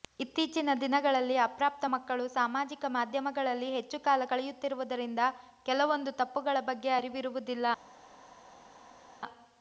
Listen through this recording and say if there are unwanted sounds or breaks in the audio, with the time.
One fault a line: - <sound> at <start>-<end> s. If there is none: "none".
none